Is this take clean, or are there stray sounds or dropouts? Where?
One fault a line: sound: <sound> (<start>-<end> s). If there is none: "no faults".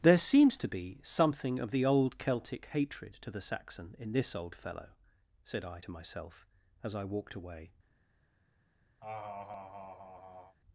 sound: laugh (9.0-10.6 s)